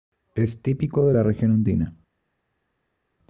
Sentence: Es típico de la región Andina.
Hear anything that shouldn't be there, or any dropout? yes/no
no